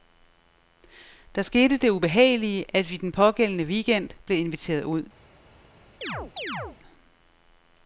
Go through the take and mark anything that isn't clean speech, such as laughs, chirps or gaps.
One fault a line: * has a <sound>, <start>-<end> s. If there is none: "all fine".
* has a chirp, 6.0-6.8 s